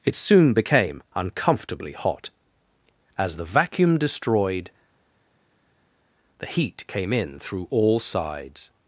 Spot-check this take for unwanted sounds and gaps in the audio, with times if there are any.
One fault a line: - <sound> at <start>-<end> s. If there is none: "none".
none